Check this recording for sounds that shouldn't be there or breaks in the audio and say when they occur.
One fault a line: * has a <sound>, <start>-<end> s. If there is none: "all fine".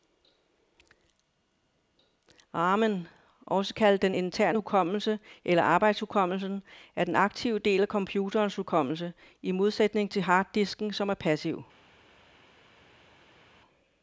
all fine